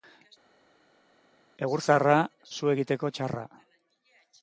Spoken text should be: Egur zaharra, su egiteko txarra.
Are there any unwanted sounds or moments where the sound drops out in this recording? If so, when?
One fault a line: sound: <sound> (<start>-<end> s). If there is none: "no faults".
no faults